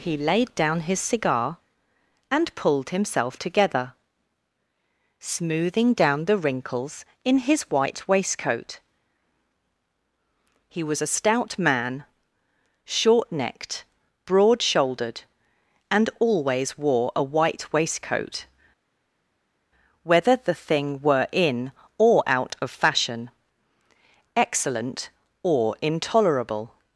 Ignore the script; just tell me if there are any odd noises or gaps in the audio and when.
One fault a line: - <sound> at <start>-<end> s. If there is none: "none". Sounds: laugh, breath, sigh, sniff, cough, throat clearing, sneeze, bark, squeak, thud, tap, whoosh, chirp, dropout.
none